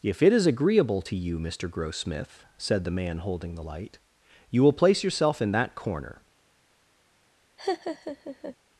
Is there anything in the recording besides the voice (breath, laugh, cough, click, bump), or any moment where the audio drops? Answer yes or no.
yes